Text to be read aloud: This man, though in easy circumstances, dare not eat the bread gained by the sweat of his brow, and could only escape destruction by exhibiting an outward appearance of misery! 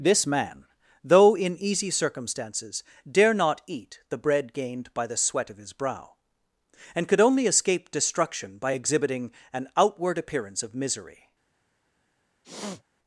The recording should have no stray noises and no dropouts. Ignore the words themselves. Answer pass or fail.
fail